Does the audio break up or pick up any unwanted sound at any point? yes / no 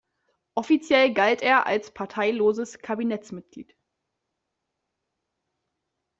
no